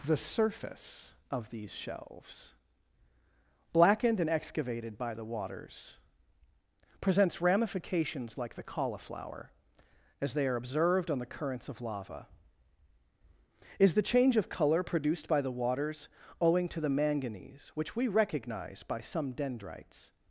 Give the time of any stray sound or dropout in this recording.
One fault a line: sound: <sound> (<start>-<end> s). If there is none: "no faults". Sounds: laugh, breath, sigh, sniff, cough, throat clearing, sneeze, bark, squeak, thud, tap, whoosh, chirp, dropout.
no faults